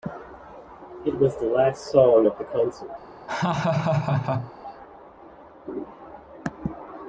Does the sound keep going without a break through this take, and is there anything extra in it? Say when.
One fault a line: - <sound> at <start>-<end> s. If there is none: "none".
- laugh at 3.3-4.5 s